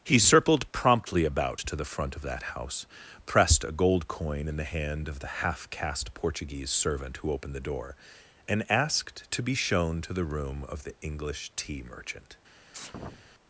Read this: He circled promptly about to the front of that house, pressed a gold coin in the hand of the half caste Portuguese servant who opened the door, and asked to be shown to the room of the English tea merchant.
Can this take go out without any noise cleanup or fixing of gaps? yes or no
no